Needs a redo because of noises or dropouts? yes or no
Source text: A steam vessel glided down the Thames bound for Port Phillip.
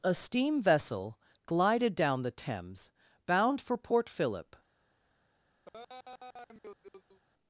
yes